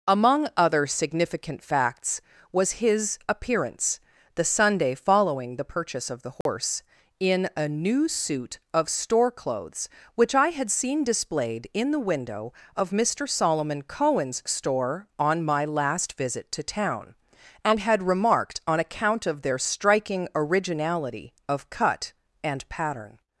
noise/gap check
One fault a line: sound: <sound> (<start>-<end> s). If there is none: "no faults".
sound: dropout (6.4-6.5 s)